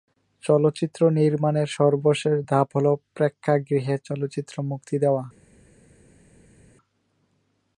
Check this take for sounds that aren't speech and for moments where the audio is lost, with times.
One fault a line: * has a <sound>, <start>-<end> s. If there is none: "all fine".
all fine